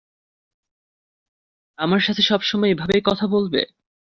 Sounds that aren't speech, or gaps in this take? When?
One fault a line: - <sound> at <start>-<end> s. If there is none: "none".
none